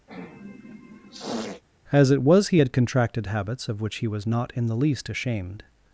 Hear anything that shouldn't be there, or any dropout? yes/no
yes